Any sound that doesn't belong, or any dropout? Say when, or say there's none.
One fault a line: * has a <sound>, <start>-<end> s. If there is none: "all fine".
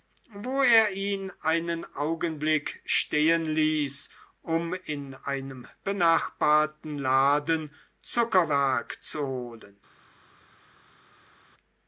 all fine